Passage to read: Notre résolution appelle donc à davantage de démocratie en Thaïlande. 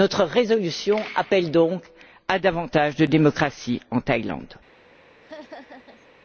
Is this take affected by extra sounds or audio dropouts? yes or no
yes